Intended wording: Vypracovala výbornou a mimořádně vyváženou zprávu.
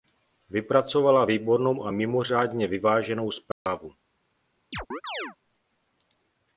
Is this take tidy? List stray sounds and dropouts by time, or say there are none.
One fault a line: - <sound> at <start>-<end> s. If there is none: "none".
- dropout at 3.5-3.7 s
- chirp at 4.7-5.4 s